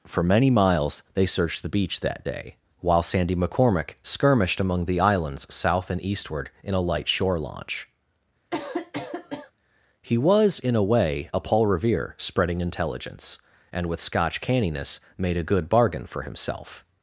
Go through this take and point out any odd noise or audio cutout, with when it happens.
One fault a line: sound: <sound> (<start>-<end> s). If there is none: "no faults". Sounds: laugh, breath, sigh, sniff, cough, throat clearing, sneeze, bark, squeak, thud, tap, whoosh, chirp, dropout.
sound: cough (8.5-9.5 s)